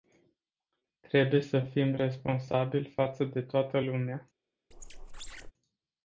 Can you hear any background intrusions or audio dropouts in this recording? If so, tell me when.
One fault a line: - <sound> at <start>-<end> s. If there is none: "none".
- squeak at 4.7-5.5 s